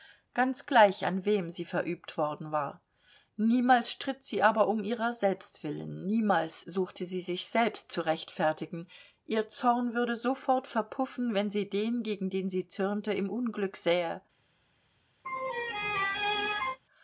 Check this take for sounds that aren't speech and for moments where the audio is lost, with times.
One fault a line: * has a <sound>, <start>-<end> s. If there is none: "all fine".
* has a laugh, 15.2-16.8 s